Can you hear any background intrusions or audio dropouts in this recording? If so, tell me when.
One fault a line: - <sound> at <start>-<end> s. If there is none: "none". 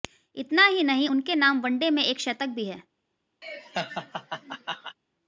- laugh at 3.4-5.0 s